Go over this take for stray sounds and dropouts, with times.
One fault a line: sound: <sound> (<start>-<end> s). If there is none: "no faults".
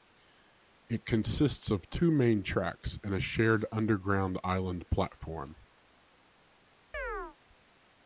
sound: chirp (6.9-7.4 s)